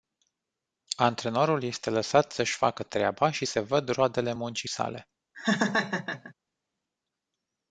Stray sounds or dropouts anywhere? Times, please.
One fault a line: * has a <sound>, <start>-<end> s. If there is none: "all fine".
* has a laugh, 5.3-6.3 s